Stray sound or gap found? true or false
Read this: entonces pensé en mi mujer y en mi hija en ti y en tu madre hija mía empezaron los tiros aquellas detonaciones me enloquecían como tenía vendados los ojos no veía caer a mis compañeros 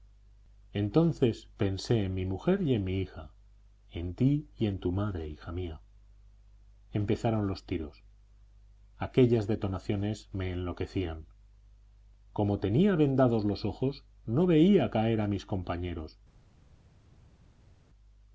false